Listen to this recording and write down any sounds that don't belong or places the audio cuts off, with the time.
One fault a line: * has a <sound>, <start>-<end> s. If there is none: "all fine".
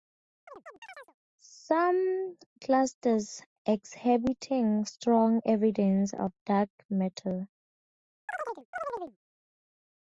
* has a chirp, 0.5-1.1 s
* has a chirp, 8.3-9.2 s